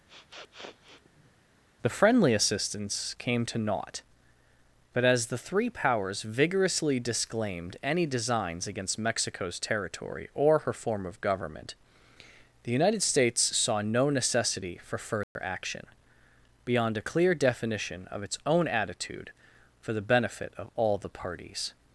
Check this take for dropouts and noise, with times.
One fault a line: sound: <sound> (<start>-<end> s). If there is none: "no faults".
sound: sniff (0.1-1.3 s)
sound: dropout (15.2-15.4 s)